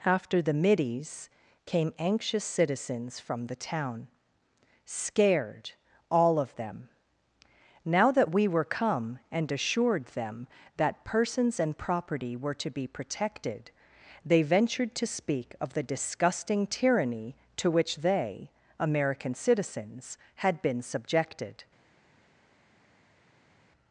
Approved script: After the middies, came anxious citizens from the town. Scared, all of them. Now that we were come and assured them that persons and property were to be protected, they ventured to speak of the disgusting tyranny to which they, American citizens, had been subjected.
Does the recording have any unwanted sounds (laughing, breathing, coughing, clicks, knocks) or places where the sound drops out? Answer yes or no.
no